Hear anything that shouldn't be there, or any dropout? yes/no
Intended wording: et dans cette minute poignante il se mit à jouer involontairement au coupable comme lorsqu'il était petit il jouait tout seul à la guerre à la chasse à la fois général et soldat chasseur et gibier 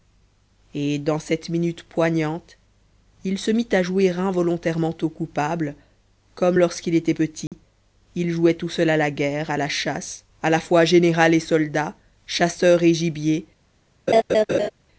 yes